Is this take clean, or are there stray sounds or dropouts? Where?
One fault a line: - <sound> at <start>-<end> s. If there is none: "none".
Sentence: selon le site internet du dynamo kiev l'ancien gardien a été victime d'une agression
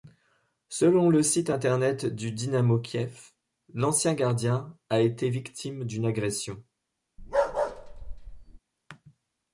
- bark at 7.2-8.6 s